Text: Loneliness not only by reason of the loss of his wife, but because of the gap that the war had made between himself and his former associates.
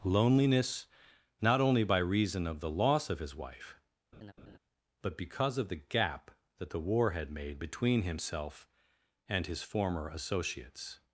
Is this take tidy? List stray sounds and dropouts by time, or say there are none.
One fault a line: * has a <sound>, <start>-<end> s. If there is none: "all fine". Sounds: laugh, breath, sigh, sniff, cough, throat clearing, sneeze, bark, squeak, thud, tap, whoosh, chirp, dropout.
* has a laugh, 4.1-4.6 s